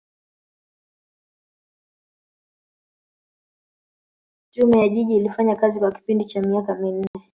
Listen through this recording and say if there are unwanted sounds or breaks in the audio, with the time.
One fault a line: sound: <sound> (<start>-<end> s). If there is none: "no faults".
sound: dropout (7.1-7.1 s)